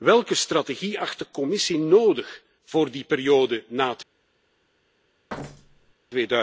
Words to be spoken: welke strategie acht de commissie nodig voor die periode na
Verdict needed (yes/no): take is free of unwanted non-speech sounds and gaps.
no